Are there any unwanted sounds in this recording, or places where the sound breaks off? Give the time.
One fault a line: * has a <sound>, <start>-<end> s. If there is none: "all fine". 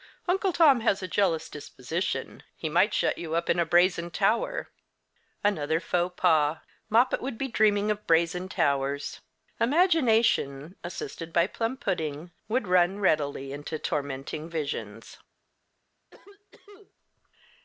* has a cough, 16.1-16.9 s